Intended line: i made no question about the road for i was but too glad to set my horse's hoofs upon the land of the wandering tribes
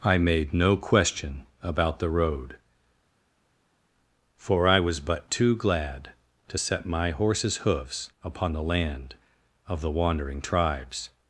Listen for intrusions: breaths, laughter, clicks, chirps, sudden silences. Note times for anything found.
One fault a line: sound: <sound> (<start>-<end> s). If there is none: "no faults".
no faults